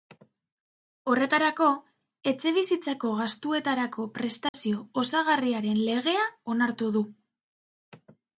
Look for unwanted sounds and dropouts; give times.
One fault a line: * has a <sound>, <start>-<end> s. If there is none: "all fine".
* has a dropout, 4.5-4.5 s